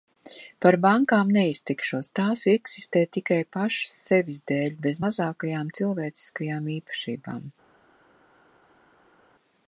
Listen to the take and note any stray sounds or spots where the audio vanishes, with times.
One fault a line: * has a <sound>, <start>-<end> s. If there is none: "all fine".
all fine